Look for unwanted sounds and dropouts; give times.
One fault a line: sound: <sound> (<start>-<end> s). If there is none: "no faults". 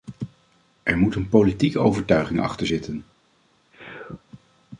sound: sneeze (3.7-4.2 s)